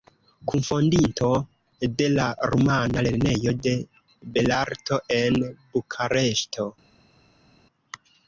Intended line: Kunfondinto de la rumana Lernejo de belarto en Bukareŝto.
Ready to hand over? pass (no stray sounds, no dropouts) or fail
pass